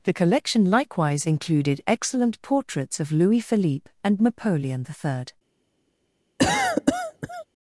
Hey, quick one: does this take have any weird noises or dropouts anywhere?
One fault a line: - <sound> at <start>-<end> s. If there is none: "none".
- cough at 6.4-7.5 s